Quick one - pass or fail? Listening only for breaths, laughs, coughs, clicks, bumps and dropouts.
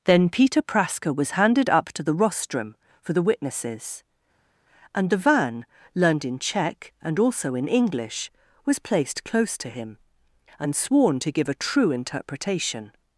pass